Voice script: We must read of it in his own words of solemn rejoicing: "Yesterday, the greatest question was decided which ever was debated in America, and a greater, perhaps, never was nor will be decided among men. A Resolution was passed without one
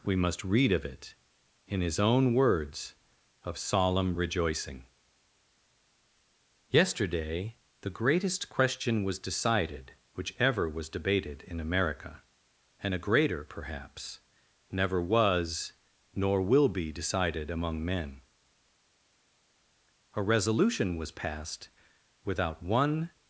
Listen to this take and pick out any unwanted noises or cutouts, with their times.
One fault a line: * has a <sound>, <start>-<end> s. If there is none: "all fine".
all fine